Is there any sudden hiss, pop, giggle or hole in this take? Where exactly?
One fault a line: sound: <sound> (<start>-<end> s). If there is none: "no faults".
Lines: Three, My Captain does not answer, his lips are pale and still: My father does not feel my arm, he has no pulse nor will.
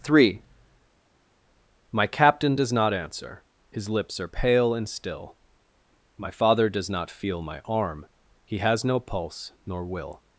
no faults